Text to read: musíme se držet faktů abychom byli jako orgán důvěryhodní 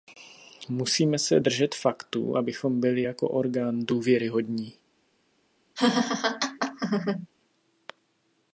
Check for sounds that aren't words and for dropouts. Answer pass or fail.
fail